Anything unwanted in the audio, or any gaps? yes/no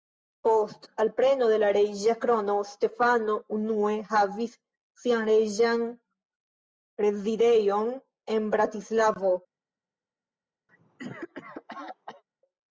yes